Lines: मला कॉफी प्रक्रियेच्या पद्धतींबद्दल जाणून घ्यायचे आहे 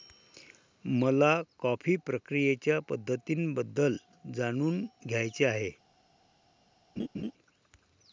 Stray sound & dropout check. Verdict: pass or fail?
fail